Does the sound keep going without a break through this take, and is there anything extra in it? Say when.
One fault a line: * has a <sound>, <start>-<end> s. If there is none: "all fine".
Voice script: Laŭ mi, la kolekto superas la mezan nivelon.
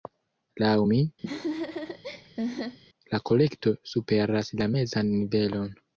* has a laugh, 1.2-2.8 s